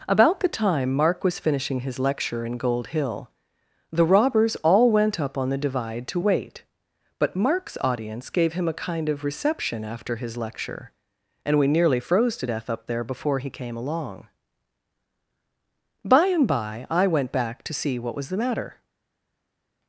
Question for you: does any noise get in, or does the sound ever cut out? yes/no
no